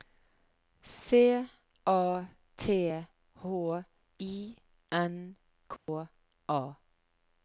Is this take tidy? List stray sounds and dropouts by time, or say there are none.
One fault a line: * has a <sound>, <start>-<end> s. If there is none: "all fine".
* has a dropout, 5.8-5.9 s